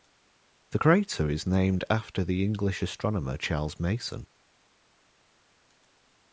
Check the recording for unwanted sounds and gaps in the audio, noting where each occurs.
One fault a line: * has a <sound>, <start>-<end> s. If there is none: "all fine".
all fine